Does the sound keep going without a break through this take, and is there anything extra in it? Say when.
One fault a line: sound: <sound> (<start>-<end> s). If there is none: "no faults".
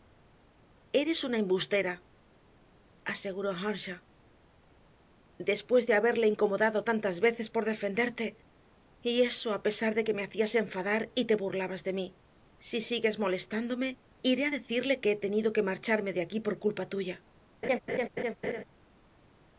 sound: laugh (17.6-18.6 s)